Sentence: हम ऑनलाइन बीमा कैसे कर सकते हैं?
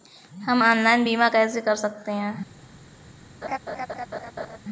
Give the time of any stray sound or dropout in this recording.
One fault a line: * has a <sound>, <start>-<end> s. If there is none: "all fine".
* has a laugh, 3.4-4.6 s